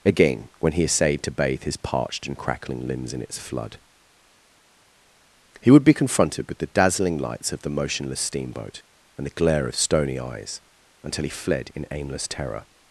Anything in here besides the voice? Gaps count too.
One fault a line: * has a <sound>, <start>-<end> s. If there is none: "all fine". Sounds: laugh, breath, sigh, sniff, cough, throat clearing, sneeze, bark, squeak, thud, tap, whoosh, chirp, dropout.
all fine